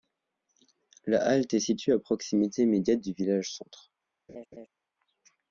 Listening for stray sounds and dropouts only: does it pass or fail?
fail